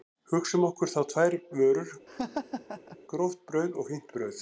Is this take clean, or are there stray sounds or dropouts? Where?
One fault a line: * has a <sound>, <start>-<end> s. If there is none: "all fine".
* has a laugh, 2.1-3.0 s